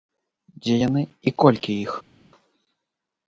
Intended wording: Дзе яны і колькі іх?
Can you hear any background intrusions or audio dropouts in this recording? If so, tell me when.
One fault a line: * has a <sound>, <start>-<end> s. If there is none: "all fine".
all fine